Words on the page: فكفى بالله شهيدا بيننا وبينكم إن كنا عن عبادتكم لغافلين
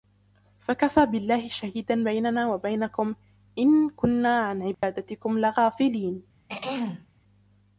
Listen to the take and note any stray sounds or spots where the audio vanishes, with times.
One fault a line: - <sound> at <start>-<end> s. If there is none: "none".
- dropout at 4.7-4.8 s
- throat clearing at 6.5-7.1 s